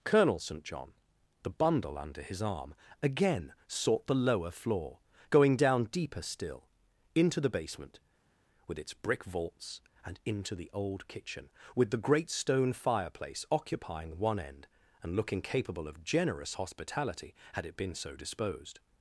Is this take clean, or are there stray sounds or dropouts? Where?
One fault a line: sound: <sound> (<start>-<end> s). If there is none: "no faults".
no faults